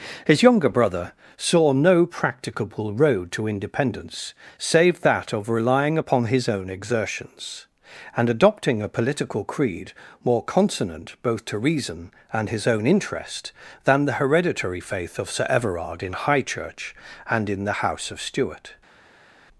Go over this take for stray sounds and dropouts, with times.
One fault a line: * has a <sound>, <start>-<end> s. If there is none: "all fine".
all fine